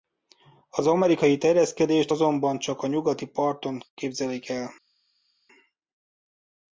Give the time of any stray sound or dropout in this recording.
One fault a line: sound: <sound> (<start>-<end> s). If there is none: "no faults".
no faults